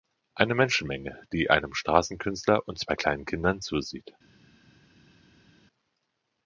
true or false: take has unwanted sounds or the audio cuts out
false